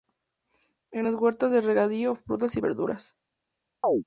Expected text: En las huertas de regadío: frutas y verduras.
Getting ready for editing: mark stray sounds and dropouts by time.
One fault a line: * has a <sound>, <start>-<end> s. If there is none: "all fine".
* has a chirp, 3.8-4.0 s